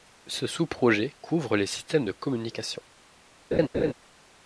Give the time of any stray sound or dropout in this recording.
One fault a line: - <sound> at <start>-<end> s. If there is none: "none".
- laugh at 3.5-3.9 s